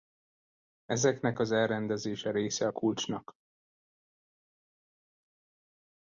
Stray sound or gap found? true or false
false